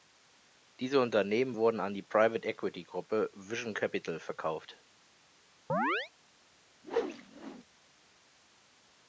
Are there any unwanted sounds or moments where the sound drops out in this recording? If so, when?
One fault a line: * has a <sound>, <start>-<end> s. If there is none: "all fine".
* has a chirp, 5.7-6.1 s
* has a whoosh, 6.8-7.6 s